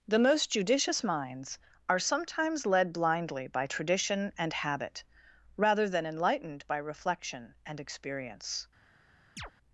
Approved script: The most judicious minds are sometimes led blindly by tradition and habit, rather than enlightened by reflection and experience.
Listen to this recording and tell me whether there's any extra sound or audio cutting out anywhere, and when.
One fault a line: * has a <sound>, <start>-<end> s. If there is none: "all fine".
* has a chirp, 9.4-9.5 s